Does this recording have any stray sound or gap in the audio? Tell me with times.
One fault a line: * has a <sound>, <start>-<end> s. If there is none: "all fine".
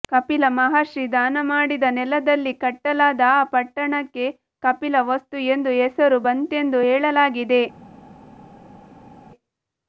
all fine